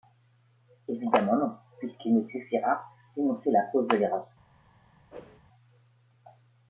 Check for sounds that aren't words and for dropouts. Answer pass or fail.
fail